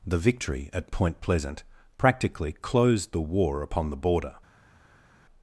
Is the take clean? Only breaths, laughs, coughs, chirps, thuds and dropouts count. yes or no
yes